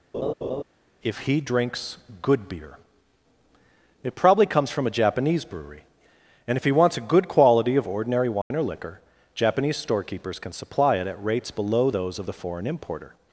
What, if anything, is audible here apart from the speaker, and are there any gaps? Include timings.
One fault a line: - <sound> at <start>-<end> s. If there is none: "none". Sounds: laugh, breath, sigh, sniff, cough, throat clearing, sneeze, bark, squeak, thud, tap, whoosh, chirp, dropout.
- laugh at 0.1-0.6 s
- dropout at 8.4-8.5 s